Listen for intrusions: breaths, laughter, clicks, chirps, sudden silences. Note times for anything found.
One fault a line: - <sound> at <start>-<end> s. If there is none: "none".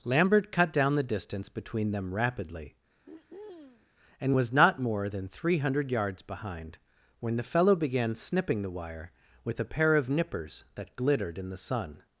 - throat clearing at 3.0-3.9 s